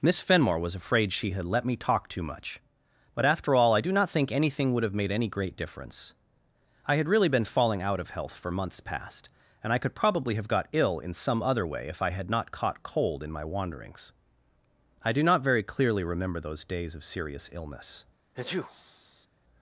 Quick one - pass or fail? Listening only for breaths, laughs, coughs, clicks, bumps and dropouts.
fail